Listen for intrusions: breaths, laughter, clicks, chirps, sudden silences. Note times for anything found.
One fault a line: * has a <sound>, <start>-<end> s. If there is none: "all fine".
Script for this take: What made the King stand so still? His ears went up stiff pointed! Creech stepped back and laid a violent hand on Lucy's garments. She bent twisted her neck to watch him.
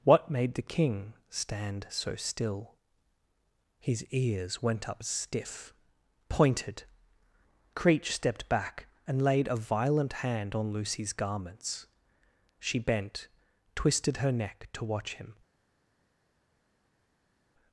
all fine